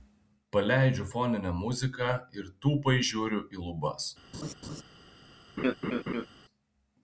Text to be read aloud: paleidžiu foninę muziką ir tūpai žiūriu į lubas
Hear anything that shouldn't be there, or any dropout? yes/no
yes